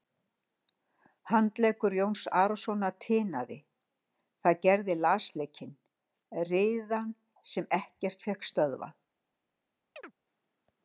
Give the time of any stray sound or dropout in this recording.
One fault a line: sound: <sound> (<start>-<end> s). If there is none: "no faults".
sound: chirp (10.0-10.1 s)